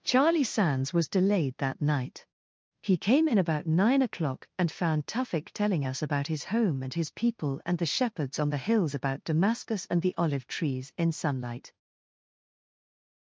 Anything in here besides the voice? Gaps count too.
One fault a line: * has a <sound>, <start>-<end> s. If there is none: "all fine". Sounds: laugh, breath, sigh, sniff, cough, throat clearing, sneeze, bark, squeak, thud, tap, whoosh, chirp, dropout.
all fine